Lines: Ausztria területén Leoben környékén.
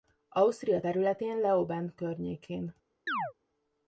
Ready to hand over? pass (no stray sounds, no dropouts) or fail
fail